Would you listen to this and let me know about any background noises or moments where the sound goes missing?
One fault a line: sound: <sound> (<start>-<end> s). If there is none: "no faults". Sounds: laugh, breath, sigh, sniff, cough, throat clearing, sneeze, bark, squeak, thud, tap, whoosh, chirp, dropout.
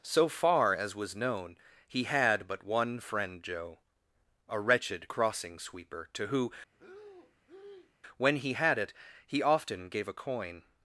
sound: breath (6.7-7.9 s)